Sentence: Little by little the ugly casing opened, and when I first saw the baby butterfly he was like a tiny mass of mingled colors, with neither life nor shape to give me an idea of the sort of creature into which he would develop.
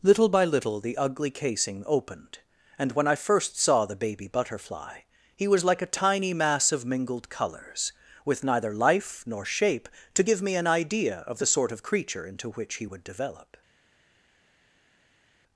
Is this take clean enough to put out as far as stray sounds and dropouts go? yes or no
yes